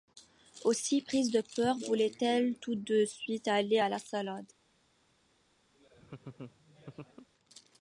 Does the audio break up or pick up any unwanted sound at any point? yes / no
yes